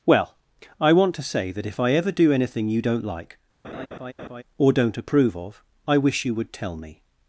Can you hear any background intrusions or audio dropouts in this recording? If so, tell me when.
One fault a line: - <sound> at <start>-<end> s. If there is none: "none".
- laugh at 3.6-4.4 s